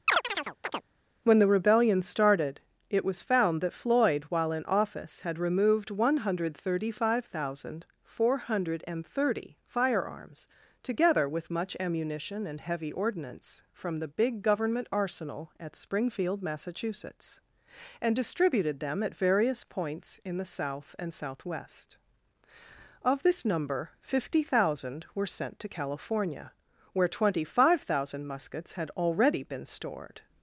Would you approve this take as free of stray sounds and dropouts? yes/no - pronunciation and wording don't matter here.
no